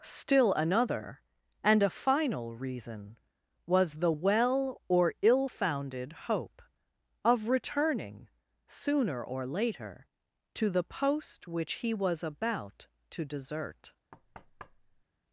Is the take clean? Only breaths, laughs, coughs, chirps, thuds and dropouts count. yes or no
no